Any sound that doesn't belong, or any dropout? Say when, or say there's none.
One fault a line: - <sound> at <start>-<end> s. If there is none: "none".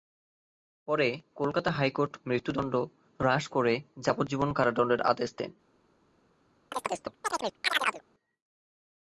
- chirp at 6.7-8.0 s